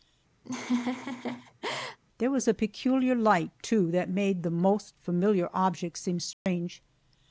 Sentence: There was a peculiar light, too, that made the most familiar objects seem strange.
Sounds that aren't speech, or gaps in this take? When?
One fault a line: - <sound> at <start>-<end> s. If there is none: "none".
- laugh at 0.4-2.0 s
- dropout at 6.3-6.5 s